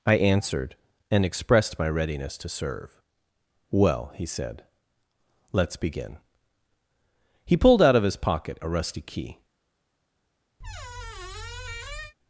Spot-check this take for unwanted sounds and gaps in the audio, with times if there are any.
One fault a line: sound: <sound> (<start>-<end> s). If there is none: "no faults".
sound: squeak (10.6-12.1 s)